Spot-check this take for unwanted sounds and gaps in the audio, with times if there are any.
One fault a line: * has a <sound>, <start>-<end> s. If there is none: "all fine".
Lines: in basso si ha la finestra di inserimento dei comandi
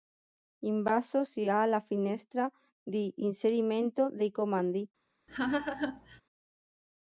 * has a laugh, 5.3-6.2 s